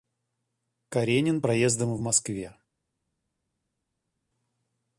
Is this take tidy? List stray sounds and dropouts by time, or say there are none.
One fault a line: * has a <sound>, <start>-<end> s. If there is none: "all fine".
all fine